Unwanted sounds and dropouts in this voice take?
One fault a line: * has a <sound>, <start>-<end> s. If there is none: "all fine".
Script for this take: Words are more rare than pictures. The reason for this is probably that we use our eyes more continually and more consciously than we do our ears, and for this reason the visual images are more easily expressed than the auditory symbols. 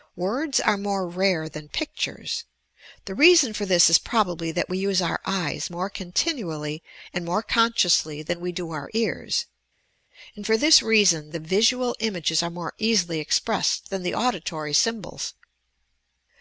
all fine